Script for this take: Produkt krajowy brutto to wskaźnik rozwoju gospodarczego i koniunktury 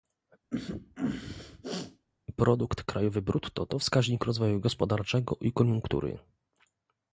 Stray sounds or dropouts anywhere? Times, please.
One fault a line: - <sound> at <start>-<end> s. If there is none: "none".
- sneeze at 0.5-2.1 s